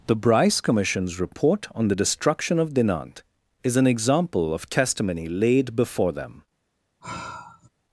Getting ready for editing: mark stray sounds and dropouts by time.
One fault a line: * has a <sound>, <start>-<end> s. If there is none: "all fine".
* has a sigh, 7.0-7.7 s